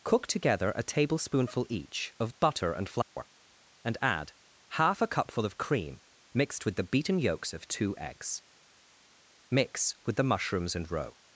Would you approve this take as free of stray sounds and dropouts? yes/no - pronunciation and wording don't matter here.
no